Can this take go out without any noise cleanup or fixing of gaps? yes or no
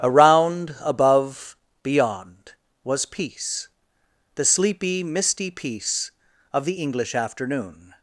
yes